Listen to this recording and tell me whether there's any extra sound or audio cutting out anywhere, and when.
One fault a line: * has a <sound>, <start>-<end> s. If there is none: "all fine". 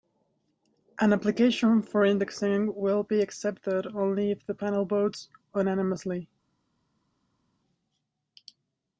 all fine